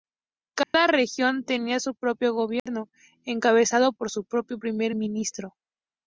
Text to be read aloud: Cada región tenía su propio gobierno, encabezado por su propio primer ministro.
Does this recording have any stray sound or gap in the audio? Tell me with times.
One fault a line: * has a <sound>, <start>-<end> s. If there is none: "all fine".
* has a dropout, 0.6-0.7 s
* has a dropout, 2.6-2.7 s